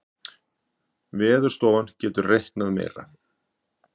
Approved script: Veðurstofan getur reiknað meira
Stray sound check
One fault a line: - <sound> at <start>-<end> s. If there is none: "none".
none